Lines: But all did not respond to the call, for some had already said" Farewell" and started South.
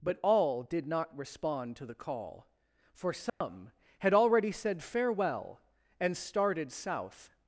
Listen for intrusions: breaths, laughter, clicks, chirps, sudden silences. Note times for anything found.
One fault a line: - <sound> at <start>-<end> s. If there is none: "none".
- dropout at 3.3-3.4 s